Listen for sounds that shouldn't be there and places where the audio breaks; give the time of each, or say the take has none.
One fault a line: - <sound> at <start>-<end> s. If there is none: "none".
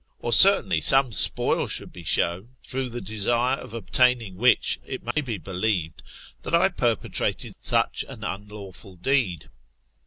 - dropout at 5.1-5.2 s